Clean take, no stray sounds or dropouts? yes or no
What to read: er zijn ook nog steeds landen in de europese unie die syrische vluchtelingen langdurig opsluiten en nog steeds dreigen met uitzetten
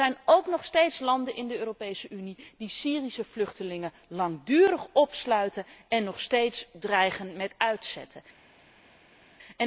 yes